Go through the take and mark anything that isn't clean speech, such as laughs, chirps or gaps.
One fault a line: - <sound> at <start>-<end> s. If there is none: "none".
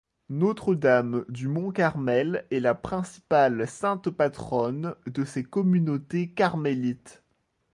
none